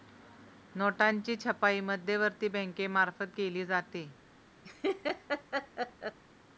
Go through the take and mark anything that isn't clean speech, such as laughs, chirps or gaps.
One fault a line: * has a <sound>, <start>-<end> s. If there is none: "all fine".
* has a laugh, 4.6-6.2 s